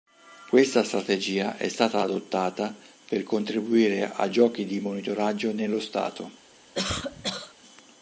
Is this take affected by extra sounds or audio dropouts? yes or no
yes